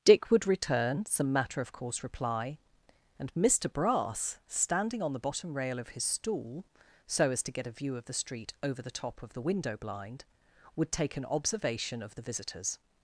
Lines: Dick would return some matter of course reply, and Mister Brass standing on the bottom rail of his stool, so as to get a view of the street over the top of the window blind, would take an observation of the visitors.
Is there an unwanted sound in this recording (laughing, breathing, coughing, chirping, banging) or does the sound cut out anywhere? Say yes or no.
no